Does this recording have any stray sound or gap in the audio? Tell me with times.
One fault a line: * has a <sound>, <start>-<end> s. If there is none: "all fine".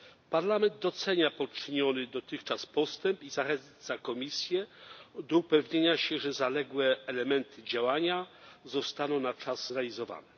all fine